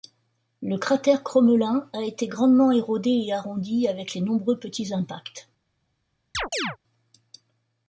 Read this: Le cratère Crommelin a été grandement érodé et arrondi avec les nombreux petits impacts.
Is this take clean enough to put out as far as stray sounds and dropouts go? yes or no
no